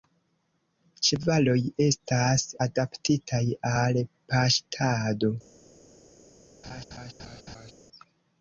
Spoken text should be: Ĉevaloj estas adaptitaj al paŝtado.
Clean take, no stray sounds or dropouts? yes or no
no